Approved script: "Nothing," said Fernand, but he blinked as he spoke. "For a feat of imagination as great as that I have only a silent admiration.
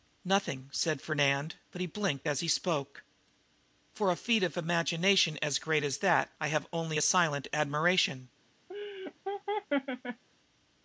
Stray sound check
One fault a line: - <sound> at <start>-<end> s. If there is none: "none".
- laugh at 8.7-10.2 s